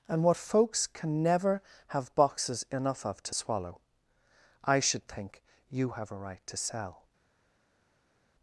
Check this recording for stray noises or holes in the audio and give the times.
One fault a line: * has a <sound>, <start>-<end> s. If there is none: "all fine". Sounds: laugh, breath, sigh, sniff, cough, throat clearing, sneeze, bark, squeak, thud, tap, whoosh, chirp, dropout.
all fine